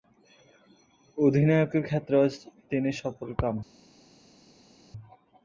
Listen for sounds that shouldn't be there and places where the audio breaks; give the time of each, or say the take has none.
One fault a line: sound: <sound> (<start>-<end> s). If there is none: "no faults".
no faults